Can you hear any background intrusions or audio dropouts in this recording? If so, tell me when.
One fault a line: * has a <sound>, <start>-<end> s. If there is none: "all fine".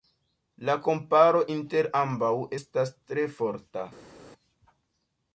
all fine